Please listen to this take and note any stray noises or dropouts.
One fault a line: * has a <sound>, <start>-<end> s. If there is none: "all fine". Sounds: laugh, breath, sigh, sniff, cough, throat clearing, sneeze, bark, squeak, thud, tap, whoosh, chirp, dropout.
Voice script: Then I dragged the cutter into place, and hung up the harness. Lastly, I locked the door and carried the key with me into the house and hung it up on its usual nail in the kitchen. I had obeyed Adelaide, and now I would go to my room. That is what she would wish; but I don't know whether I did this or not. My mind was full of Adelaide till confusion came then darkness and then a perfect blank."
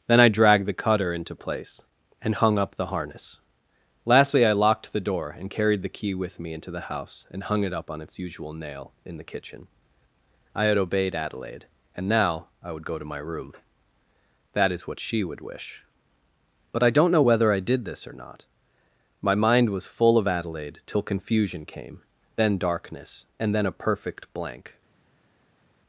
all fine